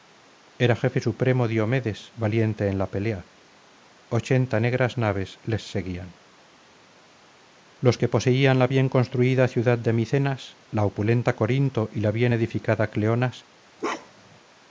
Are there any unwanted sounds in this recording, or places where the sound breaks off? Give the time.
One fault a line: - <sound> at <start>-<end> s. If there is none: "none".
- bark at 13.8-14.4 s